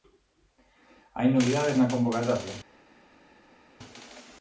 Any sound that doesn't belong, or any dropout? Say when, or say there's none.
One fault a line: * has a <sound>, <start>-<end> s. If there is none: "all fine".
all fine